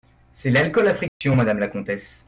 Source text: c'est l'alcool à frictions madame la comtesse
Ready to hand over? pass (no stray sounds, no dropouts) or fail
fail